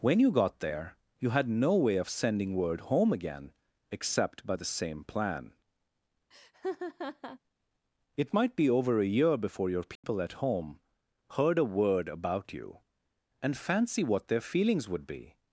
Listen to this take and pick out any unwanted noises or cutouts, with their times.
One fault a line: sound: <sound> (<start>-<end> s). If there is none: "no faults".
sound: laugh (6.3-7.4 s)
sound: dropout (10.0-10.0 s)